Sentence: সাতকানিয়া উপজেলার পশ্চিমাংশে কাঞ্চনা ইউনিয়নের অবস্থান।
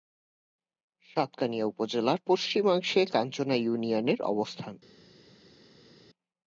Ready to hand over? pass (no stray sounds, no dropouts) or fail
pass